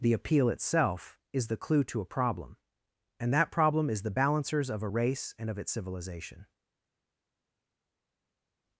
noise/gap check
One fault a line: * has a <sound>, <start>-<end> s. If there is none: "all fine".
all fine